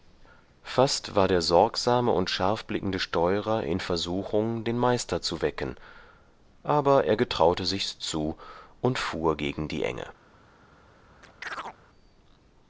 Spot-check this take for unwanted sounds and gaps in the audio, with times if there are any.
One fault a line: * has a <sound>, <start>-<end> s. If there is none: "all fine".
* has a chirp, 11.2-11.8 s